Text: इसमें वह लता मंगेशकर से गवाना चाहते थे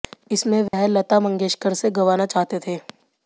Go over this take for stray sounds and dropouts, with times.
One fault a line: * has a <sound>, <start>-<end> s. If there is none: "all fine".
* has a dropout, 0.7-0.7 s